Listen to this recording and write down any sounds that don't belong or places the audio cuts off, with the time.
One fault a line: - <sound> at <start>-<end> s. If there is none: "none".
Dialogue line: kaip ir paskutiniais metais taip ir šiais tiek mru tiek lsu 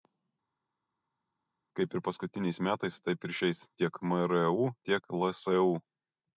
none